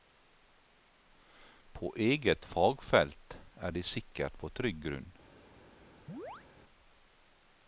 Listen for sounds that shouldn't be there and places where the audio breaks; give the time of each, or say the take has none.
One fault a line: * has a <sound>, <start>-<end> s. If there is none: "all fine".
* has a chirp, 6.1-6.5 s